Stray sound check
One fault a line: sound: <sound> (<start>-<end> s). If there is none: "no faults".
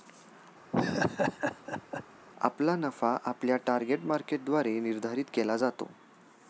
sound: laugh (0.7-2.0 s)